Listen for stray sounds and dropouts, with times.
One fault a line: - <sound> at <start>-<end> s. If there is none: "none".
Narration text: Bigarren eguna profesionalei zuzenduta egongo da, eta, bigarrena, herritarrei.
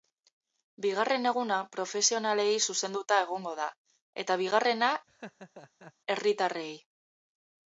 - laugh at 5.1-5.9 s